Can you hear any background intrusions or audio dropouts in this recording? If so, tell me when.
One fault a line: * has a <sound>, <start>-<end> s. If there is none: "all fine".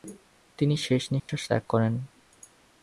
* has a dropout, 1.2-1.3 s